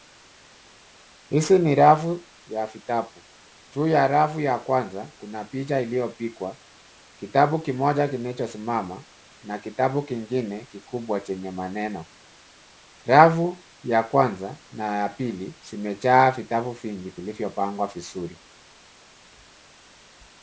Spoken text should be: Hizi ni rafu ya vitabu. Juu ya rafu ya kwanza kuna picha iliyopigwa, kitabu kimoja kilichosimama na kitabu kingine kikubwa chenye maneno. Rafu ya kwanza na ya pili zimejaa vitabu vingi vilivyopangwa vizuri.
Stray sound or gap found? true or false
false